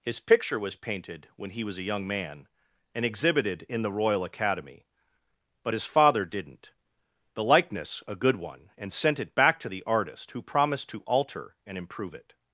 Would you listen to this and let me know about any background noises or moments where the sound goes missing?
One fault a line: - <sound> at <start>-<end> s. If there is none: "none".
none